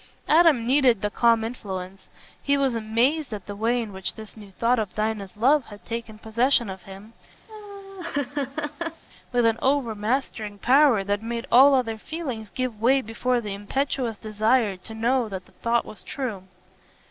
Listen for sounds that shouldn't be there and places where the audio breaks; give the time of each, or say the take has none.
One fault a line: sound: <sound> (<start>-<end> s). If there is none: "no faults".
sound: laugh (7.5-9.0 s)